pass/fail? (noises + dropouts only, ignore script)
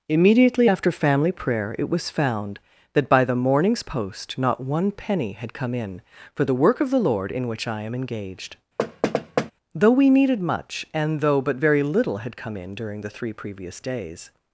fail